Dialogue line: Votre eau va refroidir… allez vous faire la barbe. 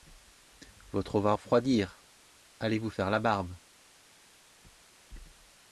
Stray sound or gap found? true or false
false